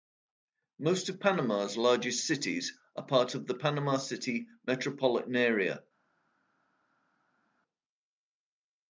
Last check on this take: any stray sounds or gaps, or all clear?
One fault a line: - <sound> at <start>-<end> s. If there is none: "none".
none